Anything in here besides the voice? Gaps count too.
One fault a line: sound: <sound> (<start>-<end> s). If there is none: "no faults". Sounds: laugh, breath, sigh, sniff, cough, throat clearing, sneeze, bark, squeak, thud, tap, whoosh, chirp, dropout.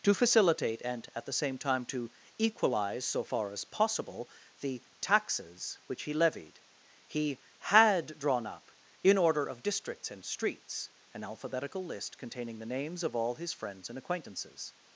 no faults